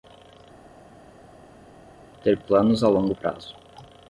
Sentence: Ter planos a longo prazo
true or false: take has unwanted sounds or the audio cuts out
false